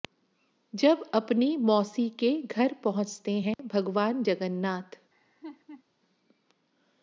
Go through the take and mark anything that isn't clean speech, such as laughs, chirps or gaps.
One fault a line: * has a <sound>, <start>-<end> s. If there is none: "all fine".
* has a dropout, 3.5-3.6 s
* has a laugh, 5.1-5.8 s